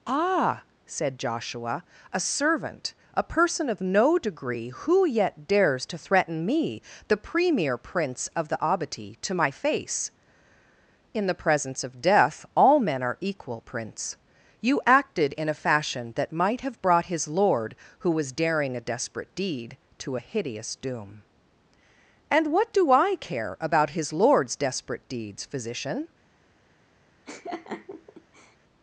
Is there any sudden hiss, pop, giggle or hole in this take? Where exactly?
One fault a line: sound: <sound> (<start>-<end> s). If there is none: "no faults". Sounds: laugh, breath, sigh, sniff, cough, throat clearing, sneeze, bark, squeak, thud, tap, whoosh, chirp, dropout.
sound: laugh (27.3-28.6 s)